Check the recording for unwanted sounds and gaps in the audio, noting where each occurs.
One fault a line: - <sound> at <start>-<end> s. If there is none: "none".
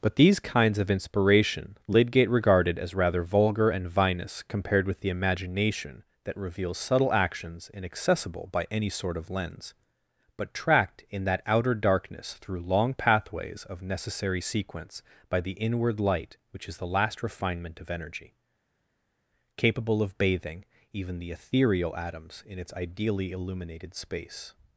none